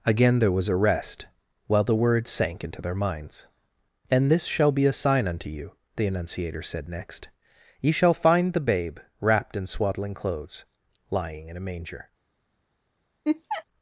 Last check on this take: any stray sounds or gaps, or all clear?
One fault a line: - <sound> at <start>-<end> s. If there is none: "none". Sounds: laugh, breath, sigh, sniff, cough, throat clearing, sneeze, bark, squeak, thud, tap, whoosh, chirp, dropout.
- laugh at 13.2-13.6 s